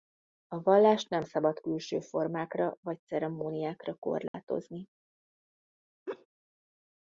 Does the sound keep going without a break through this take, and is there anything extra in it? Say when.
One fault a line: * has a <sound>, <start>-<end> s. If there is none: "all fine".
* has a dropout, 4.3-4.3 s
* has a laugh, 6.1-6.3 s